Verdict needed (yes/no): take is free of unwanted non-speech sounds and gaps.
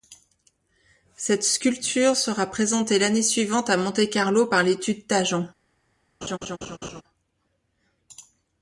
no